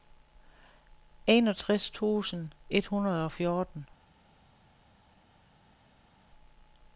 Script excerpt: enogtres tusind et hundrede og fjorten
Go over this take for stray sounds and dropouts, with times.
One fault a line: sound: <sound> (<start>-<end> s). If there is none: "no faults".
no faults